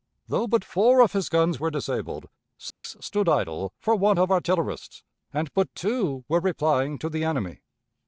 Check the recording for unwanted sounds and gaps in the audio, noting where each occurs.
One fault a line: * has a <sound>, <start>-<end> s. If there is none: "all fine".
* has a dropout, 2.7-2.8 s